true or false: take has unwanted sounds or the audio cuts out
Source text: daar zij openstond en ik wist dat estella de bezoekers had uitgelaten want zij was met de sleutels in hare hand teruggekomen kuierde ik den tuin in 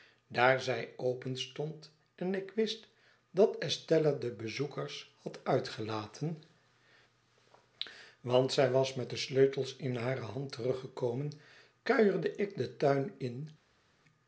false